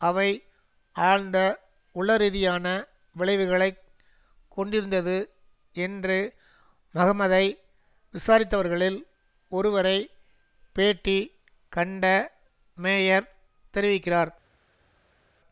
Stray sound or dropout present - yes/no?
no